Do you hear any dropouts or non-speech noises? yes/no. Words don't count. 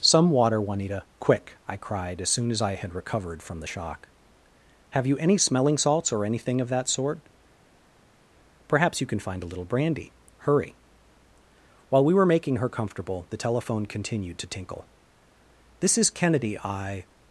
no